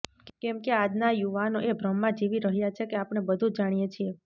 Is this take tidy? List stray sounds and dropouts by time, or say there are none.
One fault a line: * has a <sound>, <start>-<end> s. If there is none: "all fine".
all fine